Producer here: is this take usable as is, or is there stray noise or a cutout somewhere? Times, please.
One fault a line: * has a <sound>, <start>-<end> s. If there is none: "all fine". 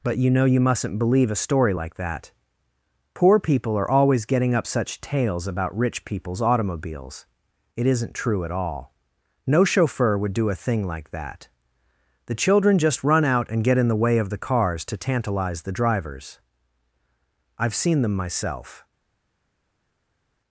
all fine